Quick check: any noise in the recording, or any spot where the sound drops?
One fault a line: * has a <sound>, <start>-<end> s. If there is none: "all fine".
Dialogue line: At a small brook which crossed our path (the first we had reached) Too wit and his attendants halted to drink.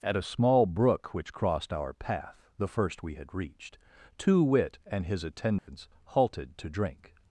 * has a dropout, 5.6-5.7 s